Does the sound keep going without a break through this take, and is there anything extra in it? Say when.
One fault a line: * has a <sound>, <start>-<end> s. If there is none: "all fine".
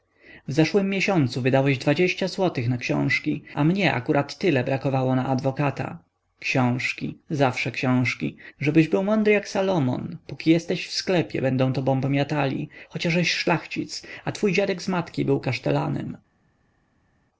all fine